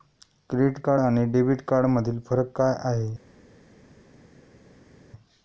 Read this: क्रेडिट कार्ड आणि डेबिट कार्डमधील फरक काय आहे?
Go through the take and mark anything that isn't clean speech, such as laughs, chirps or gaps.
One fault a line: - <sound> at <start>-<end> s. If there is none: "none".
none